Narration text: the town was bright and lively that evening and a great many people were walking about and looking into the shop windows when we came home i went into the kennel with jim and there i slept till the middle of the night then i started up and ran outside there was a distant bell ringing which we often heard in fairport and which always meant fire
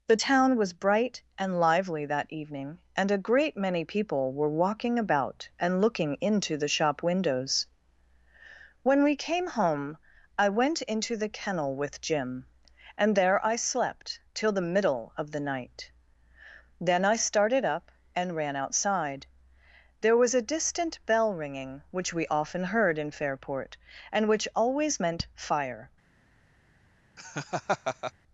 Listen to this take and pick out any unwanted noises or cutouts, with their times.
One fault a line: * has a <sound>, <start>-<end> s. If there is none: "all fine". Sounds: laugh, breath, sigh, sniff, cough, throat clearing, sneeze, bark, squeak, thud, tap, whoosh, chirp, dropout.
* has a laugh, 27.2-28.1 s